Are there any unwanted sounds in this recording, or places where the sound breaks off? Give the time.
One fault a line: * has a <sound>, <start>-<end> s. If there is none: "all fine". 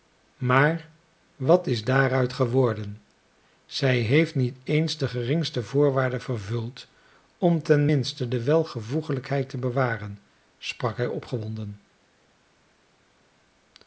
all fine